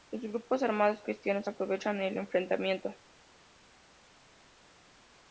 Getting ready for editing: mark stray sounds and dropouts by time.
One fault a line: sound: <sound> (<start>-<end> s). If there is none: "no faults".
no faults